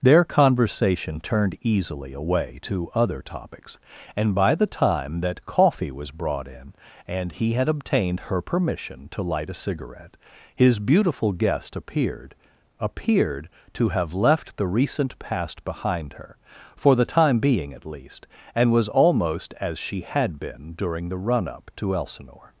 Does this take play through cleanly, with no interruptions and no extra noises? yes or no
yes